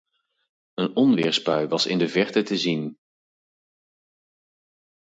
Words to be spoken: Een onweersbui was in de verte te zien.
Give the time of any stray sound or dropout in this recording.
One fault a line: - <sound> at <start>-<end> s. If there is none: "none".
none